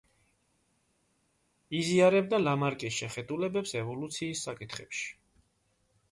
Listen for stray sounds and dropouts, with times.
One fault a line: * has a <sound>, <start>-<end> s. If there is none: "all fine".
all fine